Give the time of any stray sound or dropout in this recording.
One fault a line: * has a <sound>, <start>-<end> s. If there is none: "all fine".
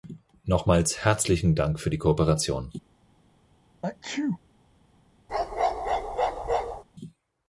* has a sneeze, 3.8-4.4 s
* has a bark, 5.3-6.8 s